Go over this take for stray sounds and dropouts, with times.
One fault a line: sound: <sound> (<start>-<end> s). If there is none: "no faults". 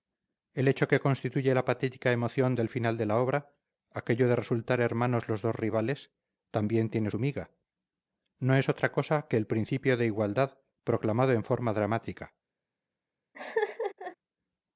sound: laugh (13.3-14.2 s)